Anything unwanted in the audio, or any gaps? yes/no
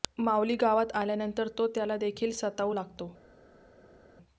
no